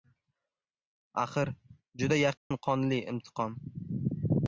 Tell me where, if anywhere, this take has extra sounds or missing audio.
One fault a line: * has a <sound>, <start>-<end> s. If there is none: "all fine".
* has a dropout, 2.4-2.5 s